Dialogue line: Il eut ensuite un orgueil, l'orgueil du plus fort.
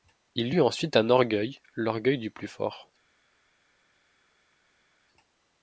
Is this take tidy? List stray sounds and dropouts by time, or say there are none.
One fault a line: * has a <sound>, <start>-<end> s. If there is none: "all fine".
all fine